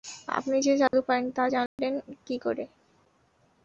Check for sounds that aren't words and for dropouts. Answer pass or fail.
fail